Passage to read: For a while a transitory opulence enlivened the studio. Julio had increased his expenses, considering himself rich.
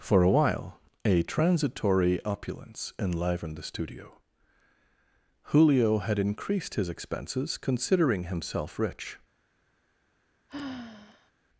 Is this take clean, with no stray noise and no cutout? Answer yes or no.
no